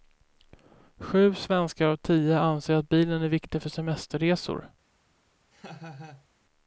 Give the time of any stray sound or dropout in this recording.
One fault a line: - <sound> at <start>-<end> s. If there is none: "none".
- laugh at 5.5-6.3 s